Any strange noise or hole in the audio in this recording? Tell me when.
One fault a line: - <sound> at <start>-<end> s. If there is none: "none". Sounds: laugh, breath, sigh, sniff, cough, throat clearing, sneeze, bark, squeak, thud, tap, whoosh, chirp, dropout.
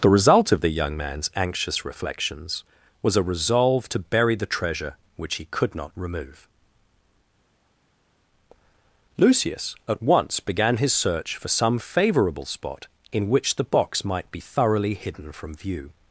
none